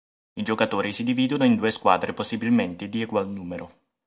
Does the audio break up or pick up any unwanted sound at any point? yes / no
no